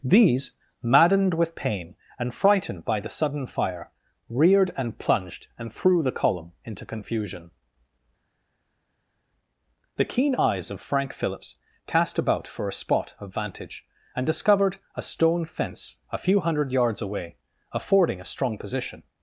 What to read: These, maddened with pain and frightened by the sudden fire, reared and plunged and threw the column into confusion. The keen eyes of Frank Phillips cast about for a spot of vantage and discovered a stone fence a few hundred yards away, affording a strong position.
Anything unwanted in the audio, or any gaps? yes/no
no